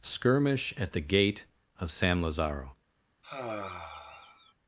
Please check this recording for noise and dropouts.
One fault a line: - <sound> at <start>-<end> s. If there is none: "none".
- sigh at 3.2-4.5 s